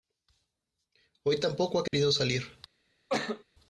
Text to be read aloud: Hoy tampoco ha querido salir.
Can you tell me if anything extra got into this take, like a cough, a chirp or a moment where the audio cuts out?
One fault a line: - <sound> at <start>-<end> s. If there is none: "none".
- dropout at 1.9-1.9 s
- cough at 3.1-3.4 s